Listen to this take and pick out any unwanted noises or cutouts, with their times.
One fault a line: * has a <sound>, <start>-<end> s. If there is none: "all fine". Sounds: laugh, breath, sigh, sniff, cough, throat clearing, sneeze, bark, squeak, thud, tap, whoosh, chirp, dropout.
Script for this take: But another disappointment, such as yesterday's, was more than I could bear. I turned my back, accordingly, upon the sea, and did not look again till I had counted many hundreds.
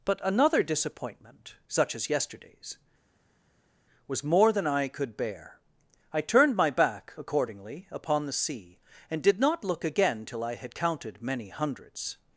all fine